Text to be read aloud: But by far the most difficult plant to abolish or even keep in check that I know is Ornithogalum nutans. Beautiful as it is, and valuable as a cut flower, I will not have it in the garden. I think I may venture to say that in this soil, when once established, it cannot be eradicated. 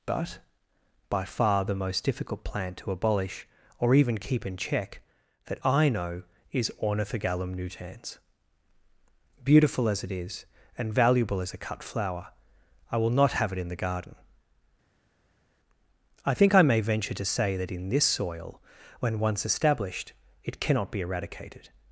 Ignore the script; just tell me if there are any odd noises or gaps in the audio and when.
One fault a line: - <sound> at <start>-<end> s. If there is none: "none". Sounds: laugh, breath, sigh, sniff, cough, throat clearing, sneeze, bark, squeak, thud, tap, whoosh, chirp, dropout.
none